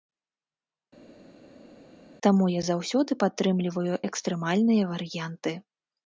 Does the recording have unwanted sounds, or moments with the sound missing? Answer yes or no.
no